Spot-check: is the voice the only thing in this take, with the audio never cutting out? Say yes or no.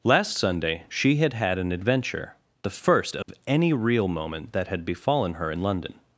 no